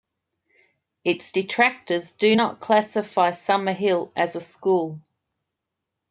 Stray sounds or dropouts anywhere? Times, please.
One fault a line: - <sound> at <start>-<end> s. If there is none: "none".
none